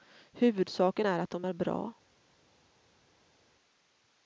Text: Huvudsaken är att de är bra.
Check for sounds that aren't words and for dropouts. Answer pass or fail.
pass